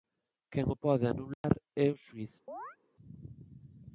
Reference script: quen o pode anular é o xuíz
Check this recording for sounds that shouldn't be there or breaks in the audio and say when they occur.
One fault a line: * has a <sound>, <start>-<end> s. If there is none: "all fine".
* has a dropout, 1.3-1.4 s
* has a chirp, 2.5-2.8 s